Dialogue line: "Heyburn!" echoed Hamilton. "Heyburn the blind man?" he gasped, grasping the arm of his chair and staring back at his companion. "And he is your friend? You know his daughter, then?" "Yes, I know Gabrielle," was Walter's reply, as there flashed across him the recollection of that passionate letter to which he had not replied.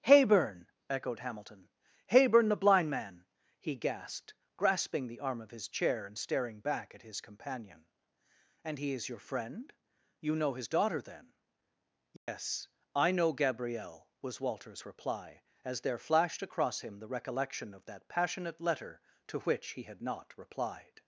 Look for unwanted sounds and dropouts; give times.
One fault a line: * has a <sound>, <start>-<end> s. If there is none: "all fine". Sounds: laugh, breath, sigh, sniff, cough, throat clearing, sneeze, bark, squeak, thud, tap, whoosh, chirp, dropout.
* has a dropout, 12.2-12.3 s